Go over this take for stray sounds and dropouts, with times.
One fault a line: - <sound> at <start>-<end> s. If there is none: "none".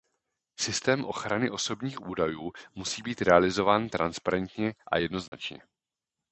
- dropout at 5.3-5.3 s